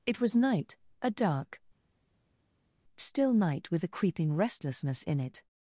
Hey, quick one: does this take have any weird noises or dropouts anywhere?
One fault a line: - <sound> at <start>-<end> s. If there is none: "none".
none